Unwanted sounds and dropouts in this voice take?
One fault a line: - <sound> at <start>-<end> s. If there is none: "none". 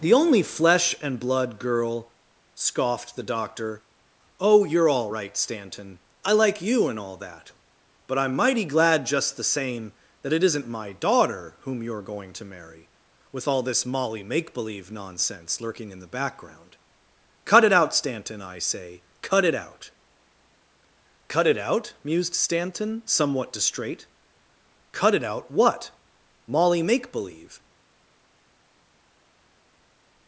none